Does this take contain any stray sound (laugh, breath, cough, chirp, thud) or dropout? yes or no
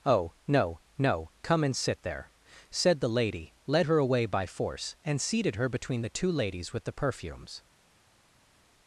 no